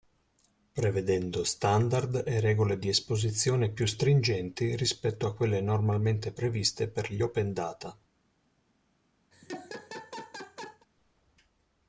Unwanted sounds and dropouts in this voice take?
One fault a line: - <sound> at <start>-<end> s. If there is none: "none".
- laugh at 9.3-10.9 s